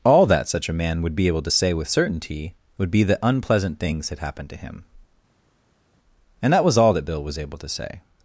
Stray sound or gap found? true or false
false